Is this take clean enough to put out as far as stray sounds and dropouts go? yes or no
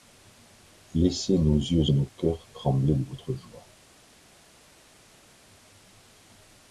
yes